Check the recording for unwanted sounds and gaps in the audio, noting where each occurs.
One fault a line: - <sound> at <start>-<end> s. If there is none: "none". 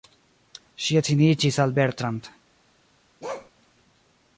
- bark at 3.2-3.5 s